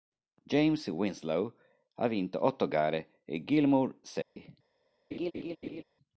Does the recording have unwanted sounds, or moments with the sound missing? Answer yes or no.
yes